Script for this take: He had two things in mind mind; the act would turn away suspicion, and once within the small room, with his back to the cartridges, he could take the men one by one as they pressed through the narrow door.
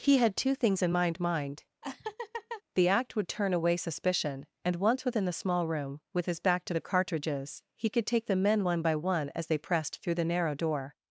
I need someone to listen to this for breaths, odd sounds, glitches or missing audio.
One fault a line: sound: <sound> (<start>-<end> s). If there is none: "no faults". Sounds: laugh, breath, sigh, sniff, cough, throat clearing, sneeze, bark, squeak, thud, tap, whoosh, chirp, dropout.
sound: laugh (1.8-2.6 s)